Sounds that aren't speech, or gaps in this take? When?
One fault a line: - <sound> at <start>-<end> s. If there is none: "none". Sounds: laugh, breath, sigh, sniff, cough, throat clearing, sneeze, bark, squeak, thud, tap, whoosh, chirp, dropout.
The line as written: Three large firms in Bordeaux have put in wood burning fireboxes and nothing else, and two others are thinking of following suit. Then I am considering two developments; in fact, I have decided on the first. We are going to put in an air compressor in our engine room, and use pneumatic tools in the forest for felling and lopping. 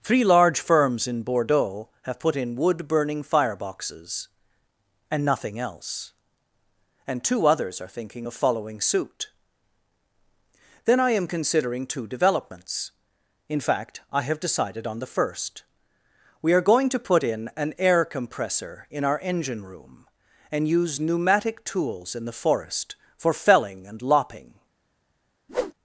- whoosh at 25.5-25.7 s